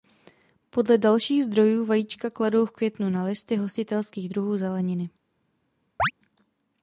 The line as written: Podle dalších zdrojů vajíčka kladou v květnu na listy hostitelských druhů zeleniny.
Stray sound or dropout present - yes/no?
yes